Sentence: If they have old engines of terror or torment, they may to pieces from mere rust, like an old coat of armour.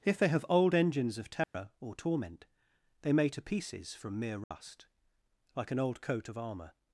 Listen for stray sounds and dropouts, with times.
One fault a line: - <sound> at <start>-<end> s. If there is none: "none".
- dropout at 1.4-1.5 s
- dropout at 4.4-4.5 s